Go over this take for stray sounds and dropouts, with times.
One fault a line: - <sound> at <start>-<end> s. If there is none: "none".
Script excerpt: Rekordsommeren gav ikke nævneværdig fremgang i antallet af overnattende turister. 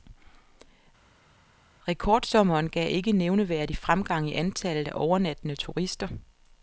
none